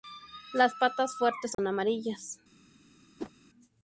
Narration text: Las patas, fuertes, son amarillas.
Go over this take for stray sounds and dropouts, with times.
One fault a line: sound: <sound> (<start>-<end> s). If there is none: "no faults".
sound: dropout (1.5-1.6 s)
sound: whoosh (3.2-3.3 s)